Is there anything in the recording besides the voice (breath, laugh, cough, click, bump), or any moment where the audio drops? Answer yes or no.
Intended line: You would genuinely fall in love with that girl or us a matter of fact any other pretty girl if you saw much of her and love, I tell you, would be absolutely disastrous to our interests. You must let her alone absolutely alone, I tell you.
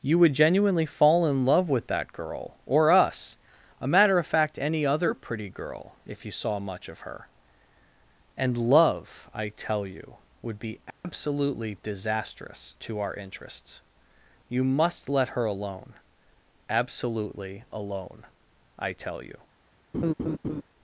yes